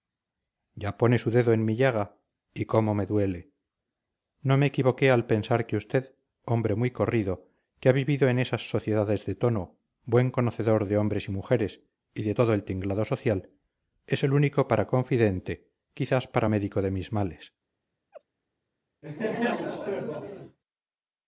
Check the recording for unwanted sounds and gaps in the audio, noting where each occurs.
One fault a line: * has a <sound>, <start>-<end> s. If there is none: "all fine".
* has a laugh, 18.1-18.2 s
* has a laugh, 19.0-20.6 s